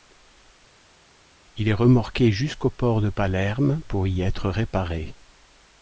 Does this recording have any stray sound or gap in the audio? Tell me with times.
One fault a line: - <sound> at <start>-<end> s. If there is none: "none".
none